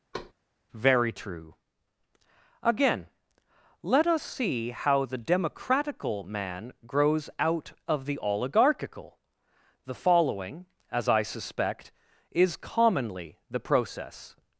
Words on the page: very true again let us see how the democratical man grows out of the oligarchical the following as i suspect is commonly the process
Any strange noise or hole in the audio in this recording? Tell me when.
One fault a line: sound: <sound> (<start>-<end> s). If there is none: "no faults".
sound: thud (0.1-0.3 s)